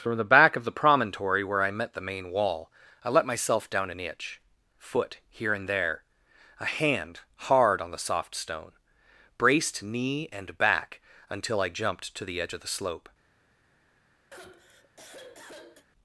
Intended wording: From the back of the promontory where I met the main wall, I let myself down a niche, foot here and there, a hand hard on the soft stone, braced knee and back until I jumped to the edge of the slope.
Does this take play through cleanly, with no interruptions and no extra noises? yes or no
no